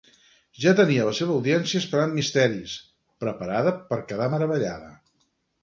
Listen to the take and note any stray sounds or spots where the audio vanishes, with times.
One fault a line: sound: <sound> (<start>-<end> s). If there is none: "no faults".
no faults